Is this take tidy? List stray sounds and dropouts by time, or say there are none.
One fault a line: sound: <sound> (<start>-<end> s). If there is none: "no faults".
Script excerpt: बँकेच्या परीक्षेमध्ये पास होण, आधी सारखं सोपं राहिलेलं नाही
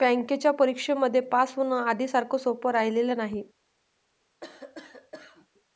sound: cough (4.4-5.5 s)